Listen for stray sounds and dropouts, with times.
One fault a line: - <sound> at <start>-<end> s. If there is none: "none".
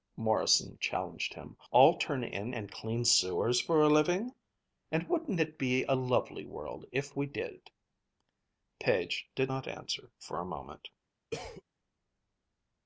- cough at 11.3-11.6 s